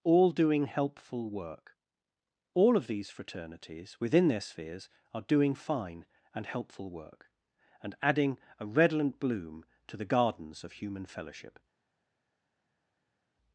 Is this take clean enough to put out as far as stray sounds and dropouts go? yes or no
yes